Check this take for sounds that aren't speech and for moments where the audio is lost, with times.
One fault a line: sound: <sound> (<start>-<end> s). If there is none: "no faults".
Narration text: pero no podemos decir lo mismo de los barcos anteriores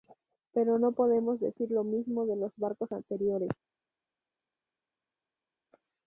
no faults